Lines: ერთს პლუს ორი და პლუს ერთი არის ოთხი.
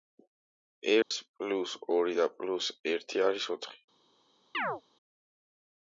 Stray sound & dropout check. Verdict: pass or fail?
fail